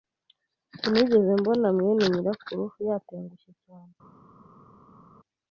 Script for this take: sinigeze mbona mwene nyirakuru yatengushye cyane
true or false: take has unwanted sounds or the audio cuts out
false